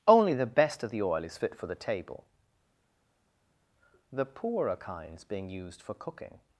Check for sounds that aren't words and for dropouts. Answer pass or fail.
pass